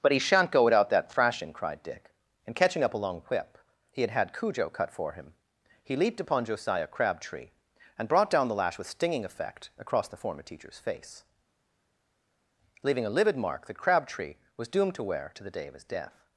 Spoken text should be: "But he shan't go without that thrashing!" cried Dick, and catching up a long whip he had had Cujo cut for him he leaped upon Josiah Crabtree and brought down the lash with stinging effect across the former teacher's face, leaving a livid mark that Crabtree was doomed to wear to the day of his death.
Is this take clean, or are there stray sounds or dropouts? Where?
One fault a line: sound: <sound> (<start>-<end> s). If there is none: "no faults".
no faults